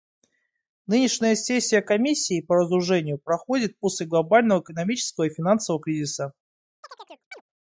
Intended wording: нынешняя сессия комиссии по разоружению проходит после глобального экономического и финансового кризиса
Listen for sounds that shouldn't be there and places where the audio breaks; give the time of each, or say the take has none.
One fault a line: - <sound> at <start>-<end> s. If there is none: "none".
- chirp at 6.8-7.4 s